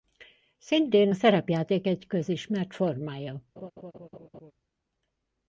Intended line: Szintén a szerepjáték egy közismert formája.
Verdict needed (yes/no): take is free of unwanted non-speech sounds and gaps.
no